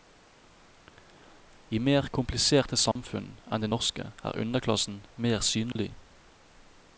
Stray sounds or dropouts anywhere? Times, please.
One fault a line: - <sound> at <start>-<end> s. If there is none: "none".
- dropout at 2.9-3.0 s
- dropout at 5.7-5.8 s